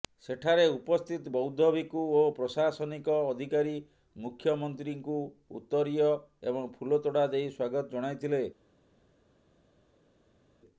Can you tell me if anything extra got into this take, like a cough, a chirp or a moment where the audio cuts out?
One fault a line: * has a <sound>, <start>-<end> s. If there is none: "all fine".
all fine